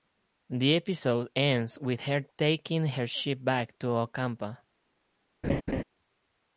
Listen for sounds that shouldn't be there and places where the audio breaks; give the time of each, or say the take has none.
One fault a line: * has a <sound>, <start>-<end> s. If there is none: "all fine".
* has a laugh, 5.4-5.8 s